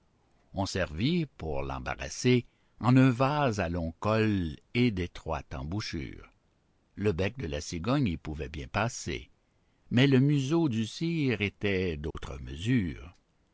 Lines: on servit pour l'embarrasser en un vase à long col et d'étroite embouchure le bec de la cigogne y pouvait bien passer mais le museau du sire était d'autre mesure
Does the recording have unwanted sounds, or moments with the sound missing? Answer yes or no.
yes